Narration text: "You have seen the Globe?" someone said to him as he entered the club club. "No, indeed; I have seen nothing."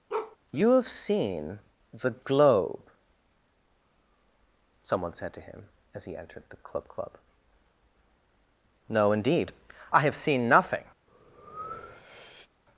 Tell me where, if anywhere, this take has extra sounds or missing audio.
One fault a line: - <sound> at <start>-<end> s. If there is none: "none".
- bark at 0.1-0.4 s
- breath at 11.1-12.5 s